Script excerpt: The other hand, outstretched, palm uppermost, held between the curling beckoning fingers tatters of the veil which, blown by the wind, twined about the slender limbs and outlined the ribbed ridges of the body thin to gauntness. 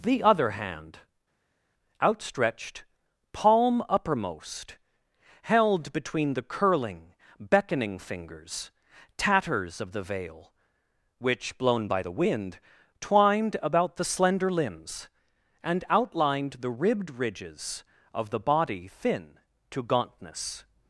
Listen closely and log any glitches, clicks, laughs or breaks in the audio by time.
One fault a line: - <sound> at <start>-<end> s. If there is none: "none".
none